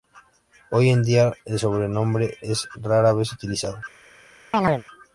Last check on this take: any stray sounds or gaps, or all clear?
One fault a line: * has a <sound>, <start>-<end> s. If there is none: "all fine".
* has a chirp, 4.5-4.8 s